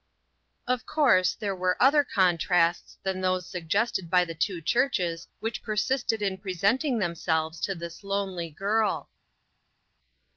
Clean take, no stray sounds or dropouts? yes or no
yes